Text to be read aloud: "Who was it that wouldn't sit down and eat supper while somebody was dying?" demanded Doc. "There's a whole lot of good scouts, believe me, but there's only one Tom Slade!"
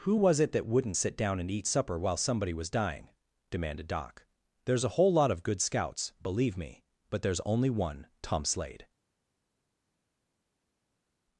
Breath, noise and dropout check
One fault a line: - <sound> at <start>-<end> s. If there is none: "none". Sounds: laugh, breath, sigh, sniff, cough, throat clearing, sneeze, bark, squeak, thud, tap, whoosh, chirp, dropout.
none